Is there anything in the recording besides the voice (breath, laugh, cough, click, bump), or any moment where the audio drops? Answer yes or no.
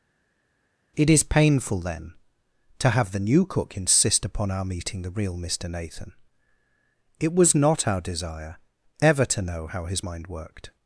no